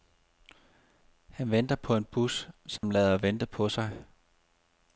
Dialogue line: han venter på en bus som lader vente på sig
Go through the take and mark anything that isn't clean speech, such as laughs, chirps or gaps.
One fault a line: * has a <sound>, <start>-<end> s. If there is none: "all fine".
* has a dropout, 2.8-2.8 s